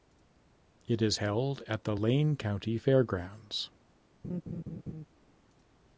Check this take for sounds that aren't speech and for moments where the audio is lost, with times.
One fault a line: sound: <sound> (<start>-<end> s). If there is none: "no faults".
sound: laugh (4.2-5.1 s)